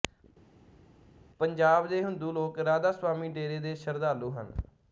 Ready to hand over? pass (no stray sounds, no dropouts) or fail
pass